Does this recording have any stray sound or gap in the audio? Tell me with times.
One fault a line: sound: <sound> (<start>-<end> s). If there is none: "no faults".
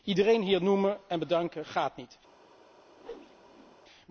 sound: whoosh (3.0-3.8 s)